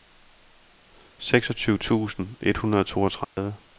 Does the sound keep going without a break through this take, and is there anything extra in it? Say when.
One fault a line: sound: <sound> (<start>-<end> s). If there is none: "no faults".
sound: dropout (3.2-3.4 s)